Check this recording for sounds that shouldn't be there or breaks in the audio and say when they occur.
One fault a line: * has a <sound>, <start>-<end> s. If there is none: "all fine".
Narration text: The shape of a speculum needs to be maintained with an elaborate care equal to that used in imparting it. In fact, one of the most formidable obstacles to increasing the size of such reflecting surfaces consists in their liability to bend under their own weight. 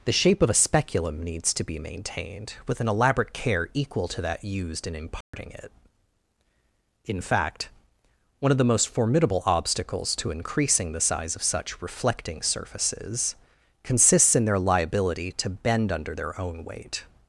* has a dropout, 5.2-5.3 s